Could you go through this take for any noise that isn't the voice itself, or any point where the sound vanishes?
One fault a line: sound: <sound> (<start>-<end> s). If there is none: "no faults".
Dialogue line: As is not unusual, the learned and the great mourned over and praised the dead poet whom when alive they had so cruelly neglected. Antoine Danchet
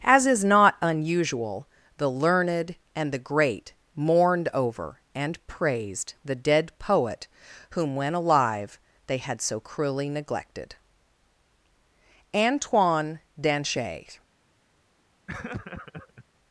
sound: laugh (15.3-16.2 s)